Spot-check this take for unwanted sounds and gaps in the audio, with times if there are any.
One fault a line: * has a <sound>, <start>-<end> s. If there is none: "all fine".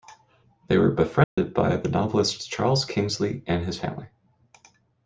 * has a dropout, 1.2-1.4 s